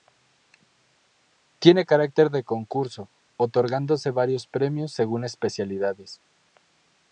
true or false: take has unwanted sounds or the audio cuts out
false